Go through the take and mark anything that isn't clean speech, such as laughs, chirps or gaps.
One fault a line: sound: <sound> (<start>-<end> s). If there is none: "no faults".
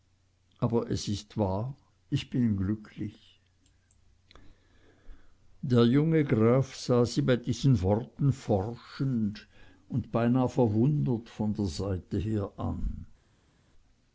no faults